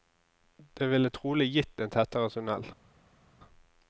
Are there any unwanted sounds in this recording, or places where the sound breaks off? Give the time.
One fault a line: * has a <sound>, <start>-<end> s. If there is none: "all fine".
all fine